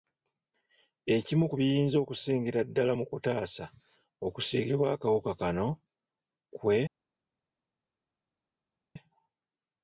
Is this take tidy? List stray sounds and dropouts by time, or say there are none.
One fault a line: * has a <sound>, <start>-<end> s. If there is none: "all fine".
all fine